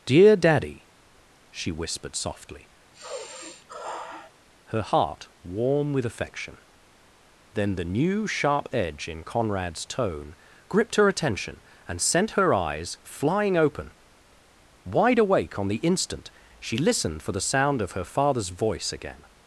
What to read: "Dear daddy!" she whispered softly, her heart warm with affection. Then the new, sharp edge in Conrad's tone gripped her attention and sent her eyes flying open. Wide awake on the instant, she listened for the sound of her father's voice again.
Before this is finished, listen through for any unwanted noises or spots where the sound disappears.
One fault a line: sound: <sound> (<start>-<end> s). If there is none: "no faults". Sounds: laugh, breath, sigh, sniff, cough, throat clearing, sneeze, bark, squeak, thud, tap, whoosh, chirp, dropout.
sound: sigh (2.9-4.3 s)